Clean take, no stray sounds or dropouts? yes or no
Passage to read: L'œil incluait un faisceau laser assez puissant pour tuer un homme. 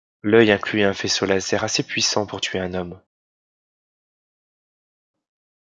yes